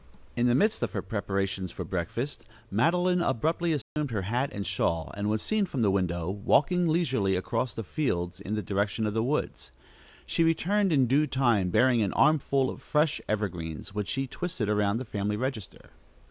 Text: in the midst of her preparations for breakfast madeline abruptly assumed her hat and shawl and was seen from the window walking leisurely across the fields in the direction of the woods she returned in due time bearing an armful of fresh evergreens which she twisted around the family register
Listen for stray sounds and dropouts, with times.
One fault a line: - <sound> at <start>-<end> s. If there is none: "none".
- dropout at 3.8-4.0 s